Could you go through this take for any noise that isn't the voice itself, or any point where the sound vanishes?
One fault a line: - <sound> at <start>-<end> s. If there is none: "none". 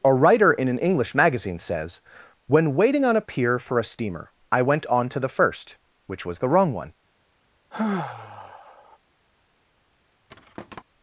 - sigh at 7.7-9.0 s
- thud at 10.3-10.8 s